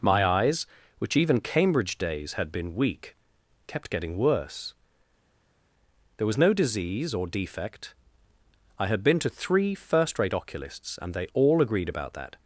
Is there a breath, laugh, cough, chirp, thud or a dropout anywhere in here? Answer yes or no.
no